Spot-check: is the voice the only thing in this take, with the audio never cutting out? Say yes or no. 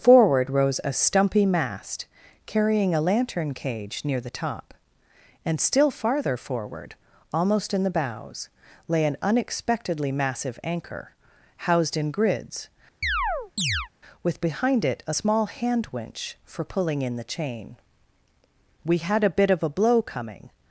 no